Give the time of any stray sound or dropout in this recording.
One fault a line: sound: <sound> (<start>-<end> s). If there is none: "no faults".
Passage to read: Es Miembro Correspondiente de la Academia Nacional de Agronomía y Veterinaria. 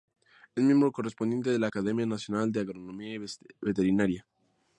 no faults